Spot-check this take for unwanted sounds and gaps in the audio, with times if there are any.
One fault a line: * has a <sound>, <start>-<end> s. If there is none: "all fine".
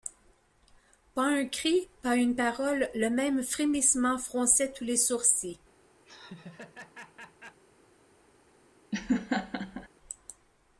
* has a laugh, 6.0-7.6 s
* has a laugh, 8.9-9.9 s